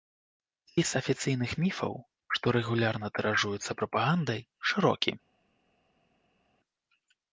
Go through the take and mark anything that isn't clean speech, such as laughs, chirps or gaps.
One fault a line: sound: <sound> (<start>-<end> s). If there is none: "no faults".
no faults